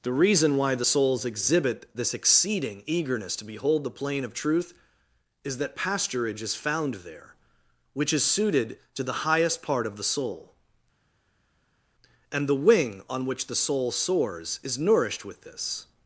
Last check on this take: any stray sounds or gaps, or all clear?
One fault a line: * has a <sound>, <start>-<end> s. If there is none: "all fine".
all fine